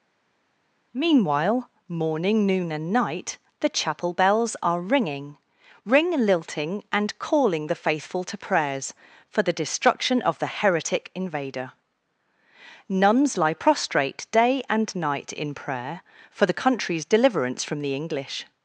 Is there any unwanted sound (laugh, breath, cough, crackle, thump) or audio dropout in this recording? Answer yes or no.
no